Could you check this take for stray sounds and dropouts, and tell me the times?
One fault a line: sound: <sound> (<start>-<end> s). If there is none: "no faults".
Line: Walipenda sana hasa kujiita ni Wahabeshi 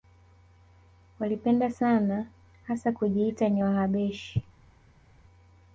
no faults